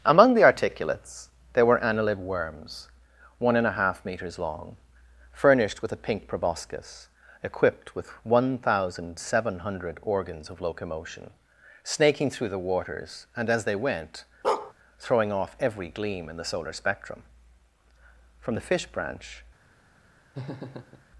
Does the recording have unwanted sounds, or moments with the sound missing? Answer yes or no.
yes